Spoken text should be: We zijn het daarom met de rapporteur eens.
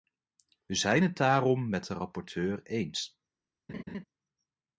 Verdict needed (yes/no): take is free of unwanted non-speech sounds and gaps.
no